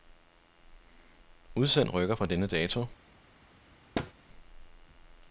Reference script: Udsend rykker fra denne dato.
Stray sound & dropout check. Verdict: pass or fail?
fail